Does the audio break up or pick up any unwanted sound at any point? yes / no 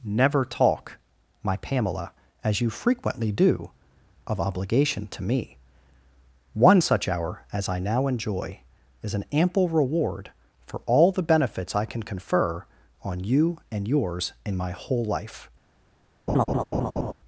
yes